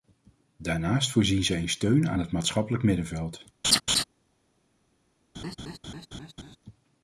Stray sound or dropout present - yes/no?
yes